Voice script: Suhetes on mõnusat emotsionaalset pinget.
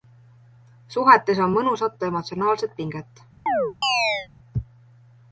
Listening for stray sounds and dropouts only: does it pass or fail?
fail